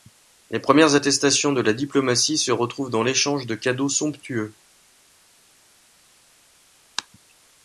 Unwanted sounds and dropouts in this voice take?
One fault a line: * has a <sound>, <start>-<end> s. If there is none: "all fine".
all fine